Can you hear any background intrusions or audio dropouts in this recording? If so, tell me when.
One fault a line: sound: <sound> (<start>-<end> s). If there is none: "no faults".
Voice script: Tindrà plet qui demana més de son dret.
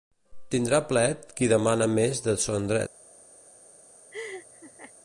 sound: laugh (4.1-4.9 s)